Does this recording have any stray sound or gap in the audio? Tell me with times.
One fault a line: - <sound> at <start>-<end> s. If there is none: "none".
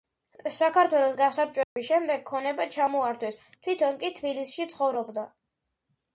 - dropout at 1.6-1.8 s